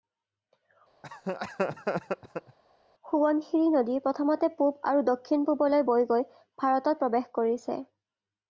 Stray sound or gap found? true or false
true